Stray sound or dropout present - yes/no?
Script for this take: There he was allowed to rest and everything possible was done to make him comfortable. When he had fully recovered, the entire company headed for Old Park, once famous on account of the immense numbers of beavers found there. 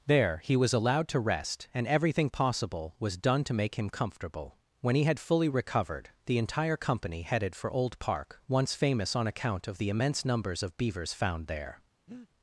yes